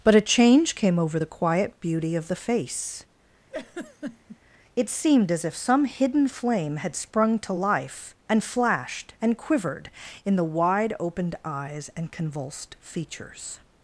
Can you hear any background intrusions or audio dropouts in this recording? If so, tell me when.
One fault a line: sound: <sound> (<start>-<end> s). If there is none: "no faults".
sound: laugh (3.5-4.4 s)